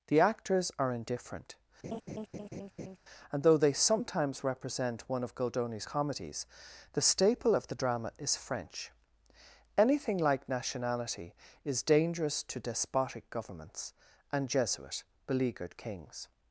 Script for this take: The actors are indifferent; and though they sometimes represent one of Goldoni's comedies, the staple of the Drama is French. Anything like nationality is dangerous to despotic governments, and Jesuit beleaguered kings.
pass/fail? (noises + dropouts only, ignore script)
fail